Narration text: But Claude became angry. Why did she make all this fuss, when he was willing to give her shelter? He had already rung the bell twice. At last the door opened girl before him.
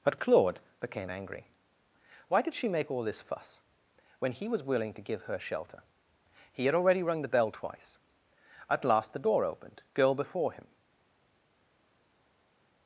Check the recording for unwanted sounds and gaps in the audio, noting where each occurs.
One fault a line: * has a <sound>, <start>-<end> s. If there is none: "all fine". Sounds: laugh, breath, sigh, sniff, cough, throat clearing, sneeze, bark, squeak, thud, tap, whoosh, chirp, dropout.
all fine